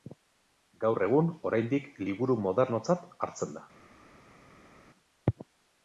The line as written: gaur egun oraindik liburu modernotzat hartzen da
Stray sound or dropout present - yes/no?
no